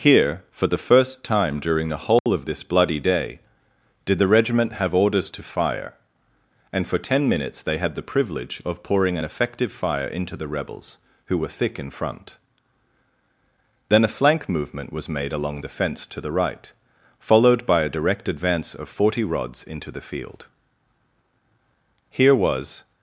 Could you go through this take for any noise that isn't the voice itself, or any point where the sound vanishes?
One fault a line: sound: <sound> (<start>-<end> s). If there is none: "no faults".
sound: dropout (2.2-2.3 s)